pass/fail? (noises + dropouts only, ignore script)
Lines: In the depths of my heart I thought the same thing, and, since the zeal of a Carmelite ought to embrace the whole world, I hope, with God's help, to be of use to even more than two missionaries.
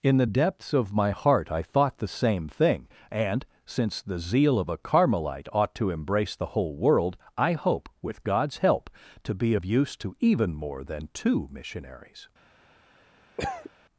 fail